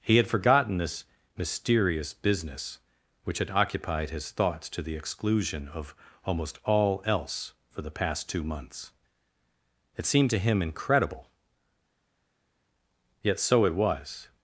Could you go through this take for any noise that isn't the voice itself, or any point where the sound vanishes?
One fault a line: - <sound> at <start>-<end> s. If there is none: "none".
none